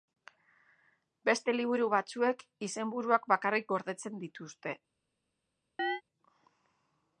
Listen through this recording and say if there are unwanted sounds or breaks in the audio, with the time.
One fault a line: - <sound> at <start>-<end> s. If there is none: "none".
- chirp at 5.8-6.0 s